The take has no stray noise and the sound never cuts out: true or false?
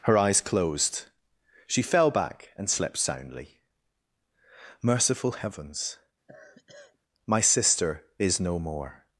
false